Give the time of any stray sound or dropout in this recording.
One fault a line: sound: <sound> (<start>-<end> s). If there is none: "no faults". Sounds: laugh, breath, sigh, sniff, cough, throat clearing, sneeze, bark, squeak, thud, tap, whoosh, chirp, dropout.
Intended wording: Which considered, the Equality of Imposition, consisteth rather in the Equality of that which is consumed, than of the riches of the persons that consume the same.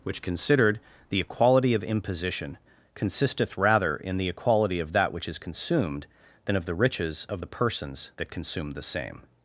no faults